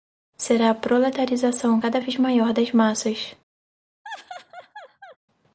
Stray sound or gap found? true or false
true